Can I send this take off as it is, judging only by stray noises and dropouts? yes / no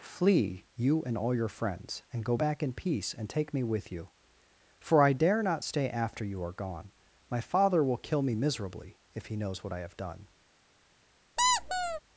no